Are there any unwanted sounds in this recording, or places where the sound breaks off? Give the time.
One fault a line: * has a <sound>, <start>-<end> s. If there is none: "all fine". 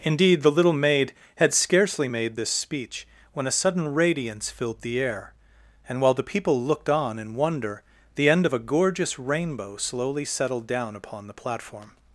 all fine